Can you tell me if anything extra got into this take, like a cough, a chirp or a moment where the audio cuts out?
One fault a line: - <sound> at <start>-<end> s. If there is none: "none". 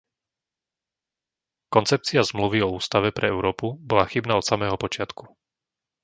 none